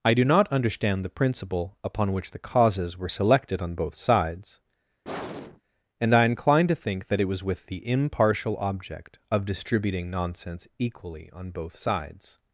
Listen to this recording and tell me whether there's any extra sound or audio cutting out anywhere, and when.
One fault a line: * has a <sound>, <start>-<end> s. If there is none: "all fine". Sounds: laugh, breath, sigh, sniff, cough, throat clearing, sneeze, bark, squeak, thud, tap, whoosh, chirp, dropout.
* has a sigh, 5.0-5.6 s